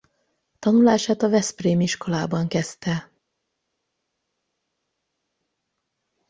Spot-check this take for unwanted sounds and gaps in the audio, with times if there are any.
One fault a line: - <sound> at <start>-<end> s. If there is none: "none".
none